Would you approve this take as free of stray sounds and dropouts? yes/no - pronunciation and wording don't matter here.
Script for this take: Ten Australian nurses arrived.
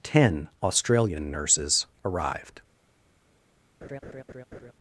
no